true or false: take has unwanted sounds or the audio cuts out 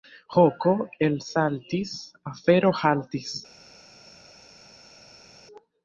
false